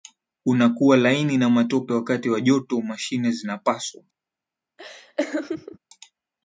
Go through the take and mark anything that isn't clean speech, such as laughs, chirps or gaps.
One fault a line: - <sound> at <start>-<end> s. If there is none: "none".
- laugh at 4.8-5.8 s